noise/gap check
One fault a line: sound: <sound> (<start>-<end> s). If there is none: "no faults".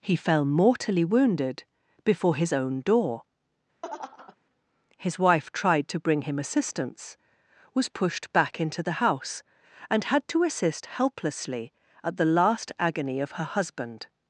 sound: laugh (3.8-4.4 s)